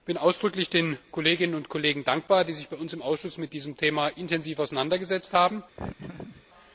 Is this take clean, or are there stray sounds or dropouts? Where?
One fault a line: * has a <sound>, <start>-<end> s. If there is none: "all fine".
* has a laugh, 5.8-6.4 s